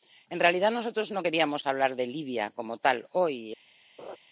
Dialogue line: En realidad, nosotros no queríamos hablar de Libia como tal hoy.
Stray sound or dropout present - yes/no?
yes